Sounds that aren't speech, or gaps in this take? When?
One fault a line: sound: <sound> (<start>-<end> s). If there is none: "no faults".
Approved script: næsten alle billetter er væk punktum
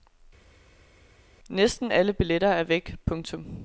no faults